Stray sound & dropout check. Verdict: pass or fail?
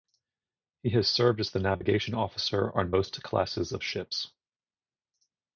pass